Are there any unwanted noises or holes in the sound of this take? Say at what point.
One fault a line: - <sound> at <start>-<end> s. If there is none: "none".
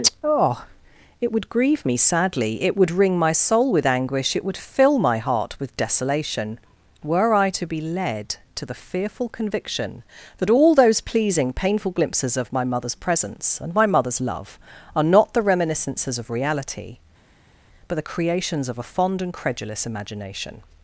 none